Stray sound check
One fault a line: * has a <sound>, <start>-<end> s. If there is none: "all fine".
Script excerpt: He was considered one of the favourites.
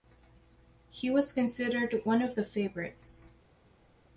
all fine